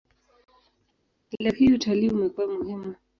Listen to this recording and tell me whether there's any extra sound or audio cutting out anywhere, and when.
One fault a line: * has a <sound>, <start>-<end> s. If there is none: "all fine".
all fine